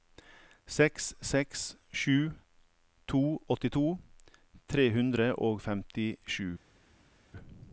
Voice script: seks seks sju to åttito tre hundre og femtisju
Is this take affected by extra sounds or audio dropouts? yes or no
no